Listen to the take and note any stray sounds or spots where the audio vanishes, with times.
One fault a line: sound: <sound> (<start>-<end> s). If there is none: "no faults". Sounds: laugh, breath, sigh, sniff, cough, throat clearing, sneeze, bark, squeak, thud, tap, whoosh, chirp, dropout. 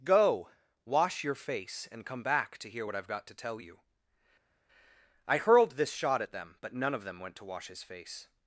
no faults